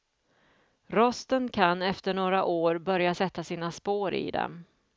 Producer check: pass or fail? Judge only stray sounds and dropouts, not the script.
pass